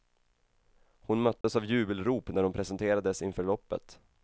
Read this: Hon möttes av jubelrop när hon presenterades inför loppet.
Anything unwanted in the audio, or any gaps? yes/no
yes